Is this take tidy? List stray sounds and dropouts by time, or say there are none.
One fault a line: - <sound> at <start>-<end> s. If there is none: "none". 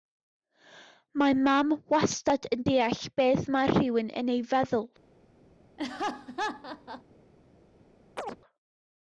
- laugh at 5.8-7.0 s
- chirp at 8.2-8.4 s